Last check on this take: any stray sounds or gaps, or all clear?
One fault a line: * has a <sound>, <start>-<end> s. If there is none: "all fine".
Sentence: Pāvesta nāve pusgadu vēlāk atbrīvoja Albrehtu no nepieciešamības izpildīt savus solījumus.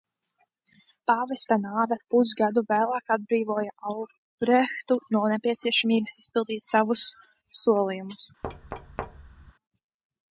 * has a thud, 8.4-9.5 s